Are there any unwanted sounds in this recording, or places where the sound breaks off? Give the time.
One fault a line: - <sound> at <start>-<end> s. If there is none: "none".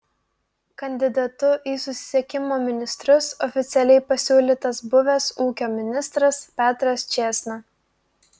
none